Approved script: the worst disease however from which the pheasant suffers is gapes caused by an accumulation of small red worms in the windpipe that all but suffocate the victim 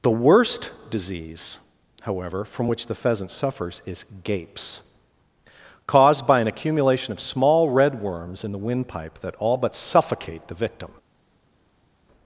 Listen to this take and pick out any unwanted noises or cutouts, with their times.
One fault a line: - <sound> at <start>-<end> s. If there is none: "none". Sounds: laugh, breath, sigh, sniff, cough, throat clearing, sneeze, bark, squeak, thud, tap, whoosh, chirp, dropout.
none